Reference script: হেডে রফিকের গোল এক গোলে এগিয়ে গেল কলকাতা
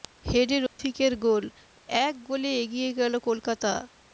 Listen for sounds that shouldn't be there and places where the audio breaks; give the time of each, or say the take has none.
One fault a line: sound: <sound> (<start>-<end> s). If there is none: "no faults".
sound: dropout (0.7-0.8 s)